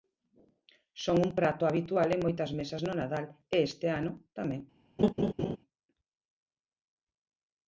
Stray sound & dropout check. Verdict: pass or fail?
fail